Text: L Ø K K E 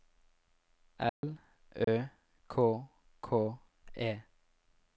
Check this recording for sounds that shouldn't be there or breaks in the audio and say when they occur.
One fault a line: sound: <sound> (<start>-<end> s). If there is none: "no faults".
sound: dropout (1.1-1.2 s)
sound: dropout (1.8-1.9 s)